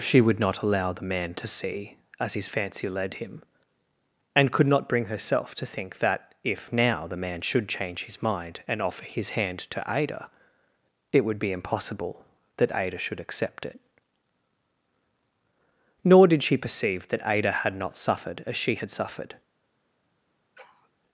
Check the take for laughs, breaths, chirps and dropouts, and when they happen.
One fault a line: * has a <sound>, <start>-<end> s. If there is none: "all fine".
* has a sniff, 20.6-20.9 s